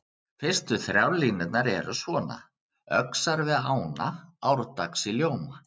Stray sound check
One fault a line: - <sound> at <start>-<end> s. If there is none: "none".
none